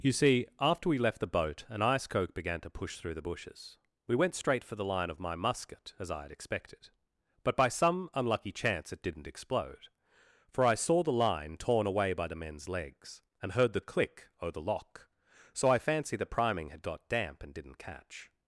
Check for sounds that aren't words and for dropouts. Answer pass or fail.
pass